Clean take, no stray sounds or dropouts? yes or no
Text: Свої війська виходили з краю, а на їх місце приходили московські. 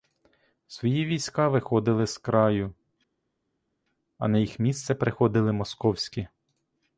yes